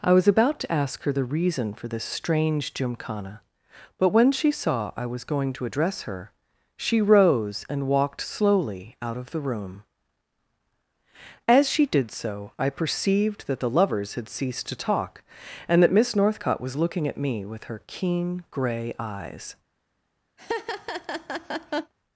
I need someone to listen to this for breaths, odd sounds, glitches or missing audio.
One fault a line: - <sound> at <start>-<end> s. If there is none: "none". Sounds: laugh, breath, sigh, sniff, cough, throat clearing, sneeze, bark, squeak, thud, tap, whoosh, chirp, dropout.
- laugh at 20.4-21.9 s